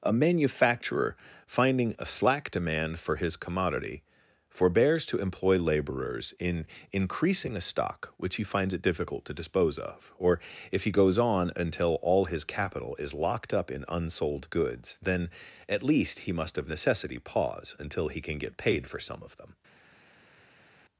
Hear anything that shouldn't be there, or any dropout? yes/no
no